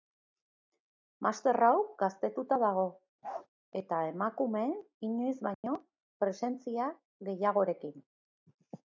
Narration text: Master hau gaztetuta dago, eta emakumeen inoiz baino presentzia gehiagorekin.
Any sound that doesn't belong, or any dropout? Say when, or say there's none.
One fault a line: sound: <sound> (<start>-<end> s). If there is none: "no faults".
sound: bark (3.2-3.5 s)
sound: dropout (5.5-5.6 s)